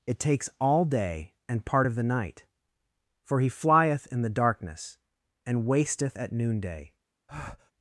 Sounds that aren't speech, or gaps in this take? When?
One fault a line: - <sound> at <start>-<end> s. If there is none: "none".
- breath at 7.3-7.7 s